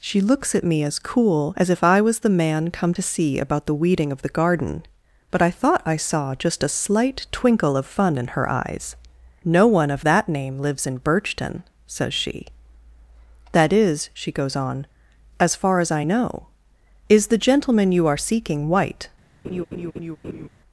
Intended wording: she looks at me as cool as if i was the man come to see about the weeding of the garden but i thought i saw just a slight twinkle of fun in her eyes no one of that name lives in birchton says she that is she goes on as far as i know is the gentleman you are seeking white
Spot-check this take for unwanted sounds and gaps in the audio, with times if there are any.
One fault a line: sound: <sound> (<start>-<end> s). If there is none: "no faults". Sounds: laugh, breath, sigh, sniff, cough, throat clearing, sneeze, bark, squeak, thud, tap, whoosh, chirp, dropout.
sound: laugh (19.4-20.5 s)